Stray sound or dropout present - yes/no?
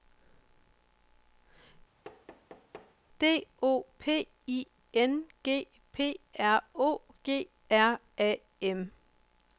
yes